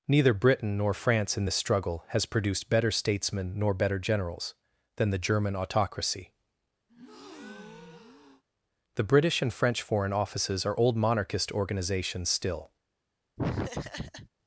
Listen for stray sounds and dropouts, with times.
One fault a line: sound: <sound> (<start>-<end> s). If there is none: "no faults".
sound: breath (6.9-8.4 s)
sound: laugh (13.4-14.3 s)